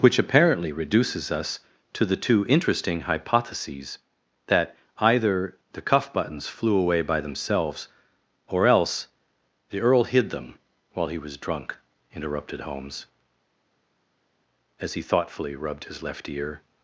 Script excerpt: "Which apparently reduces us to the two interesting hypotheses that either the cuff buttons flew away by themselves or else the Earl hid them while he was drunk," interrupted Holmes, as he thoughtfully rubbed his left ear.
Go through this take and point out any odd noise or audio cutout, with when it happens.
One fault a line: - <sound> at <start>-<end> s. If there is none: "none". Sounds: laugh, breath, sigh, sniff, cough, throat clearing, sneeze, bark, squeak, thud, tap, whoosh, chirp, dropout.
none